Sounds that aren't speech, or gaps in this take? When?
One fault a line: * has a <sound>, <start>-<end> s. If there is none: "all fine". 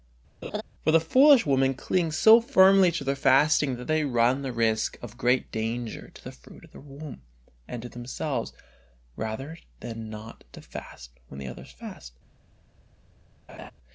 * has a laugh, 0.4-0.6 s
* has a laugh, 13.5-13.7 s